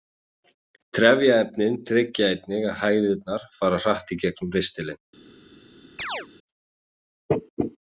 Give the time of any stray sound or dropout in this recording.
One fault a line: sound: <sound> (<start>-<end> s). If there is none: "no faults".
sound: chirp (6.0-6.3 s)